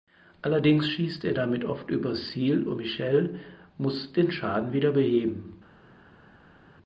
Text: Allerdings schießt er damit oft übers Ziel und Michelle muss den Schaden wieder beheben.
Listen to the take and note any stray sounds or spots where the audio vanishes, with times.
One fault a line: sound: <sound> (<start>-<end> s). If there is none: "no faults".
no faults